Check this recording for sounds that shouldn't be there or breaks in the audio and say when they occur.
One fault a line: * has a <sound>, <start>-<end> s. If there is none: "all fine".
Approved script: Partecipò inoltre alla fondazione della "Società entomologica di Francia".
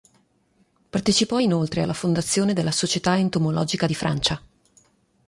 all fine